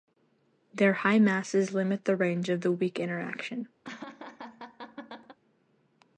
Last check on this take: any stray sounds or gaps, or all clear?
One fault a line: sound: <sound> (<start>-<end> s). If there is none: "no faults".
sound: laugh (3.8-5.4 s)